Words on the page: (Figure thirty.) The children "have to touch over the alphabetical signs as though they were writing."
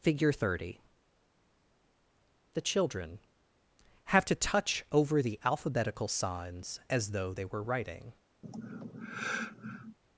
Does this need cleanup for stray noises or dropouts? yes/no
yes